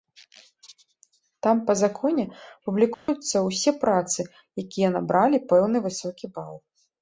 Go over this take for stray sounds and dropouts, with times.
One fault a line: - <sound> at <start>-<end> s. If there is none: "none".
- dropout at 2.9-3.1 s